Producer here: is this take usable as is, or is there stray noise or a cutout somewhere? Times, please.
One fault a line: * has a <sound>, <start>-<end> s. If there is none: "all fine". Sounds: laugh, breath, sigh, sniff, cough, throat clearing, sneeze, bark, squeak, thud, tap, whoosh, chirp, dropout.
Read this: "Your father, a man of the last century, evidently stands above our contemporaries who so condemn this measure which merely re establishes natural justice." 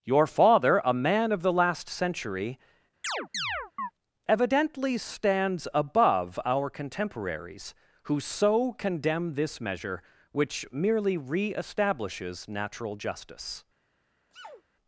* has a chirp, 3.0-3.9 s
* has a sneeze, 14.3-14.6 s